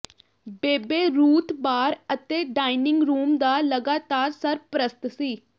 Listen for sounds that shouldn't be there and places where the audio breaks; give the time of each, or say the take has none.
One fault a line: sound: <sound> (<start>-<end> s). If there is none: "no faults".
no faults